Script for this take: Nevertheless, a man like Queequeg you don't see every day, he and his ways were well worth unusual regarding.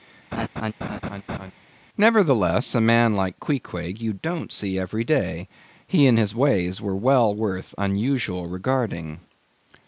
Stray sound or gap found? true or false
true